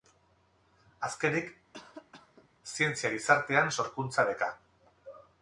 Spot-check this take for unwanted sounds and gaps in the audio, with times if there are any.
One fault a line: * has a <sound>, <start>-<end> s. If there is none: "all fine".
* has a cough, 1.7-2.5 s